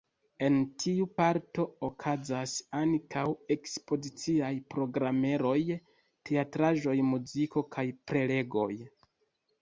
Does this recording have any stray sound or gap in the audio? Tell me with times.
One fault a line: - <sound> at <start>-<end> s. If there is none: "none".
none